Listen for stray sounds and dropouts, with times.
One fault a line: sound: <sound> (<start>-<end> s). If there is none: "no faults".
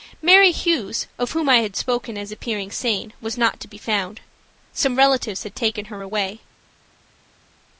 no faults